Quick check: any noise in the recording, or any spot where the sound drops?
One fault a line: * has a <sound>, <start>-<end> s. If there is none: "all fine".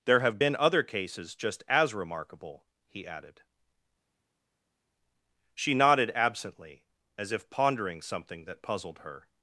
all fine